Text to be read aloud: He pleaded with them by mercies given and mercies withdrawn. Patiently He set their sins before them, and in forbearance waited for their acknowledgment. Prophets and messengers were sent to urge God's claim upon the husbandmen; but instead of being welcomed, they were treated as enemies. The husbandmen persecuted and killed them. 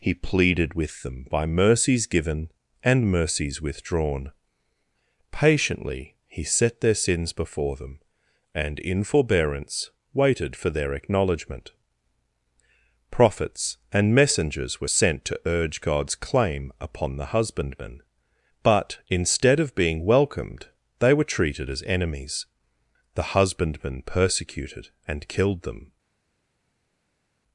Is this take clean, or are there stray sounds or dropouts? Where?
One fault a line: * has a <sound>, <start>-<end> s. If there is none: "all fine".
all fine